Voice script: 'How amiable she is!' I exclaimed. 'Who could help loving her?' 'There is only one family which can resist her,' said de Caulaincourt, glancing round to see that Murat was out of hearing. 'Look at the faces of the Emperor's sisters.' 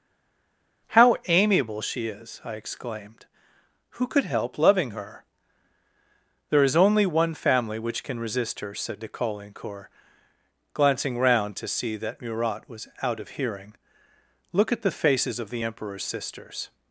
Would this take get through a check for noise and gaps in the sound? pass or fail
pass